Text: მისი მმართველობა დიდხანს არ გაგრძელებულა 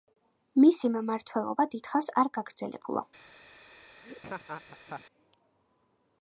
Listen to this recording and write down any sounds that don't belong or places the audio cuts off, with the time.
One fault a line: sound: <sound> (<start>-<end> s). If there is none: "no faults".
sound: laugh (4.0-5.0 s)